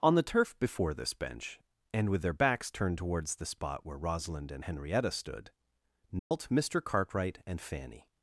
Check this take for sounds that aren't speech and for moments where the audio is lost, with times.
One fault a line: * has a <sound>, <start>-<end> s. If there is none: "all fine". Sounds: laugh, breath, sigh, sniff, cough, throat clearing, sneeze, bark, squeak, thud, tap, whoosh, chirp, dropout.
* has a dropout, 6.2-6.3 s